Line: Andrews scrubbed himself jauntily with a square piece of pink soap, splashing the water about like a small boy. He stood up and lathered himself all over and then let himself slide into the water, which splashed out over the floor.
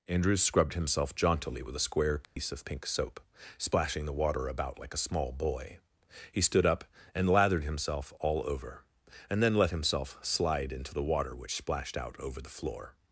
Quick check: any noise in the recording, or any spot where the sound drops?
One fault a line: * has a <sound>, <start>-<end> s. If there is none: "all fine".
* has a dropout, 2.2-2.4 s